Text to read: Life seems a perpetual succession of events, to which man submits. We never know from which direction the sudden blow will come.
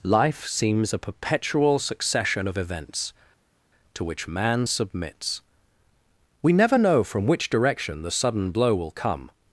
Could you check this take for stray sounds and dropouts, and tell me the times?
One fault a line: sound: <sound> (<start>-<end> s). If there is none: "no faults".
no faults